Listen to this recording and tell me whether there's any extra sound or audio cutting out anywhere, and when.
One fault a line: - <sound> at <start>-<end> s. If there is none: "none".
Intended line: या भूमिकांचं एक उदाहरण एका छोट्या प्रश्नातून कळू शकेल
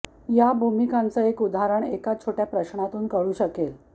none